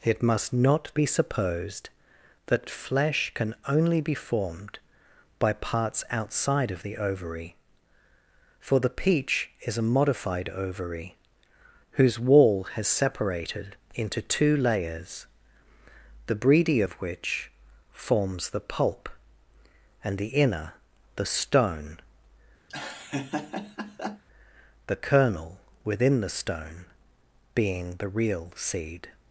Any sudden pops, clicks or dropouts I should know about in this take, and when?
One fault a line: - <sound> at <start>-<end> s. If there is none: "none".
- laugh at 22.7-24.2 s